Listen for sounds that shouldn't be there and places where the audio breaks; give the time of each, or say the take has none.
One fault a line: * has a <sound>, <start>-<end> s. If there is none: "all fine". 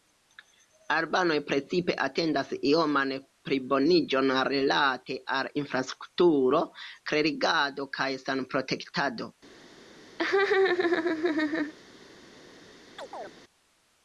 * has a laugh, 10.2-11.7 s
* has a chirp, 13.0-13.3 s